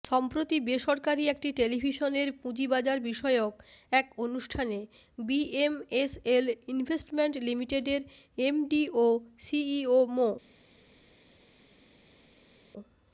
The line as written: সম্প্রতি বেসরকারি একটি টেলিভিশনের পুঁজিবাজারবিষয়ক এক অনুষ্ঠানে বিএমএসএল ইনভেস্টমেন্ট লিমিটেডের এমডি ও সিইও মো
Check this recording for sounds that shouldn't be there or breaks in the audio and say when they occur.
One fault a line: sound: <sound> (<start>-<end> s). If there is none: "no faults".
no faults